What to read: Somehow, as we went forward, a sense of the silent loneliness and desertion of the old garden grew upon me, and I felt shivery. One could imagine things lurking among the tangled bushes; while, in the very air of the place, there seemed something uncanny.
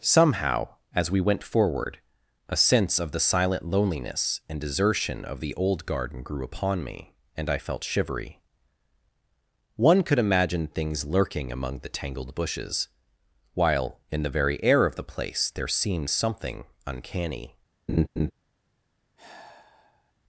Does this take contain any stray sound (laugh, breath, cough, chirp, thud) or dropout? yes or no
yes